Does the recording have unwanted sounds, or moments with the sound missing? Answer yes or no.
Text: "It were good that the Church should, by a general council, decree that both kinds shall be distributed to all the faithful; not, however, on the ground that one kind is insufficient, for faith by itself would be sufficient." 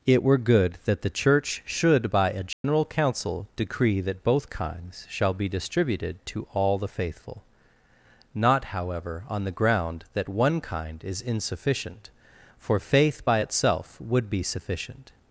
yes